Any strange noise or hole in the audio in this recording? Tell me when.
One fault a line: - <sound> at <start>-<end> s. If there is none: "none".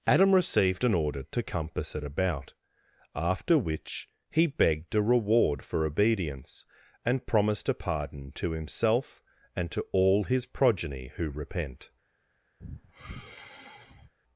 - sigh at 12.6-14.1 s